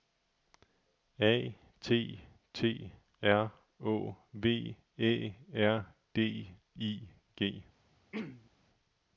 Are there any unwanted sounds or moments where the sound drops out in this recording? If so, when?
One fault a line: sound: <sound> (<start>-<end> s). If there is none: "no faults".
sound: throat clearing (8.1-8.5 s)